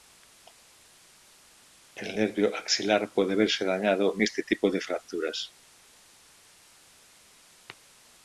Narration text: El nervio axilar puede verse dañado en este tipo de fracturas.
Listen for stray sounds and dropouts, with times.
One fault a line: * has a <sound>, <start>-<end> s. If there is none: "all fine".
all fine